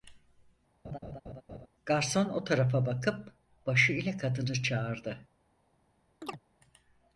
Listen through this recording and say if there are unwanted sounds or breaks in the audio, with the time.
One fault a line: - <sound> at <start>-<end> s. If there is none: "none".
- laugh at 0.8-1.7 s
- chirp at 6.2-6.4 s